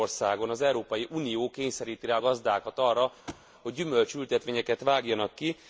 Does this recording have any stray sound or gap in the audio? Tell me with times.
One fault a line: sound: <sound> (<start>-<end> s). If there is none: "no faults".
sound: thud (3.3-3.5 s)